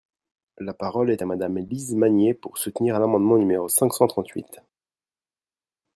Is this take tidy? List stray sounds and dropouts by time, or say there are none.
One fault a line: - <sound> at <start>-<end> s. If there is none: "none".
none